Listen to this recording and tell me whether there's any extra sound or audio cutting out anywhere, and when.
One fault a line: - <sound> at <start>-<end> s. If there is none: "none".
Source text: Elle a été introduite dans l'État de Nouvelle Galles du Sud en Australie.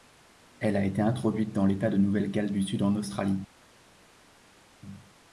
none